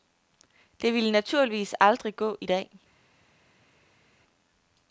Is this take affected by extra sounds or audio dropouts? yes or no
no